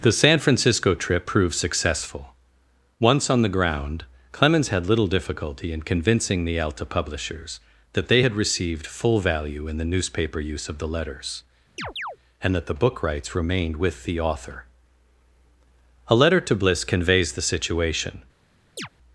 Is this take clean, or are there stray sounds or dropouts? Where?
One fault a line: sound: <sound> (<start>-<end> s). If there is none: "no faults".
sound: chirp (11.8-12.2 s)
sound: chirp (18.8-18.9 s)